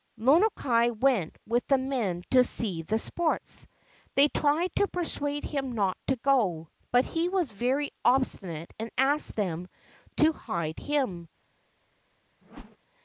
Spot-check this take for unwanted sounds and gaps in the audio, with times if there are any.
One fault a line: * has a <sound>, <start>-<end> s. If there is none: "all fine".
* has a whoosh, 12.4-12.8 s